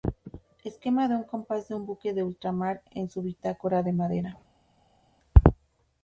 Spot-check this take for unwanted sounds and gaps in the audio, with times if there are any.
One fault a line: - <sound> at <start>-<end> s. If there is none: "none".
none